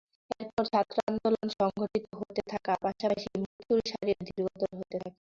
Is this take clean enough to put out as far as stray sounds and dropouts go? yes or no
no